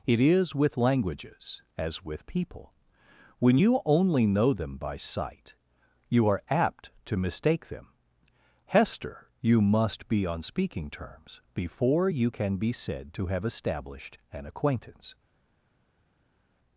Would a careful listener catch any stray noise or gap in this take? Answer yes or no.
no